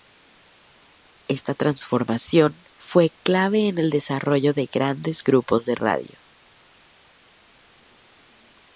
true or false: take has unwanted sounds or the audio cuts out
false